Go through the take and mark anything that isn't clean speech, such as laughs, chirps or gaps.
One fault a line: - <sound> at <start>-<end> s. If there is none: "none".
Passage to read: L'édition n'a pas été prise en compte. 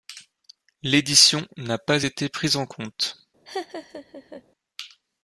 - laugh at 3.5-4.4 s